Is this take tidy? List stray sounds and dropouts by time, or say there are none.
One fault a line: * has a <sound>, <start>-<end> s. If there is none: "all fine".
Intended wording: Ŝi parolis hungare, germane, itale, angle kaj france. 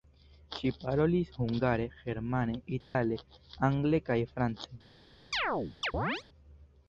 * has a dropout, 2.8-2.9 s
* has a chirp, 5.3-6.2 s